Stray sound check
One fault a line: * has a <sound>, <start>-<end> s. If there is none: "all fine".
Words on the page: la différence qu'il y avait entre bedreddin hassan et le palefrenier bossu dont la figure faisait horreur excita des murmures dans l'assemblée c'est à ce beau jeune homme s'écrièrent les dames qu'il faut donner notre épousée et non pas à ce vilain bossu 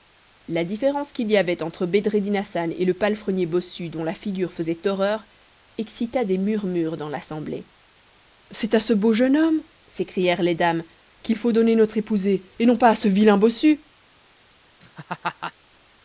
* has a laugh, 14.8-15.5 s